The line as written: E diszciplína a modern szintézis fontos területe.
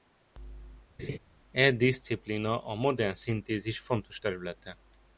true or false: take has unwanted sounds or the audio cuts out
true